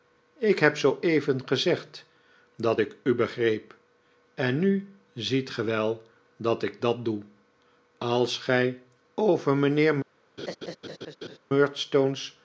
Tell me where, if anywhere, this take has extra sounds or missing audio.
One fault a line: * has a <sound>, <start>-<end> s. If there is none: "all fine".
* has a laugh, 10.4-11.4 s